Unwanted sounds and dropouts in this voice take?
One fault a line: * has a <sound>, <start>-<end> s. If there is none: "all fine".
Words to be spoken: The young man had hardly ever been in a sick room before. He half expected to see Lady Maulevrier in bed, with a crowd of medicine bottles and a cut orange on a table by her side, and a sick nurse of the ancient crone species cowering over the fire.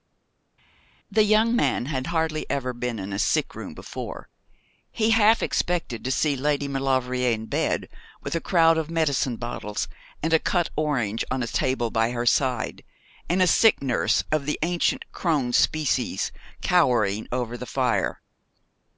all fine